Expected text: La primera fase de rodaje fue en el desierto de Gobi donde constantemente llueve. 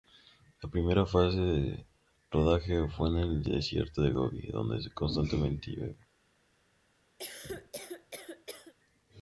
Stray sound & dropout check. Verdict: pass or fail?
fail